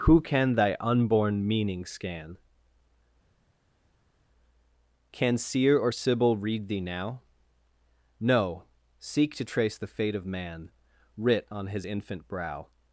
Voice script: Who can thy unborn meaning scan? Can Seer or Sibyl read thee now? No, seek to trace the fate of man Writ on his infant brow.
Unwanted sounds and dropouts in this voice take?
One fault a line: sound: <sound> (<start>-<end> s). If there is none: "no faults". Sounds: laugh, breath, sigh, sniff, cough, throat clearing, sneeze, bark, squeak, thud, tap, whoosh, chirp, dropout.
no faults